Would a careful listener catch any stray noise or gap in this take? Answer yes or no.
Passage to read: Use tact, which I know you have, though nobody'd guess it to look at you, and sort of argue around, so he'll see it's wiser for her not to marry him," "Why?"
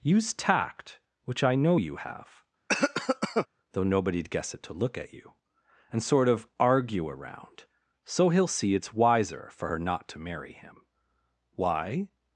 yes